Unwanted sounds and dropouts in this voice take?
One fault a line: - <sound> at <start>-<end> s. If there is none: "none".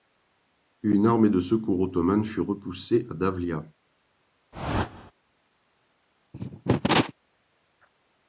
- whoosh at 4.5-5.1 s
- cough at 6.3-7.1 s